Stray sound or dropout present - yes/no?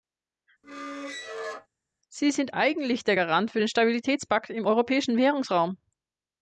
yes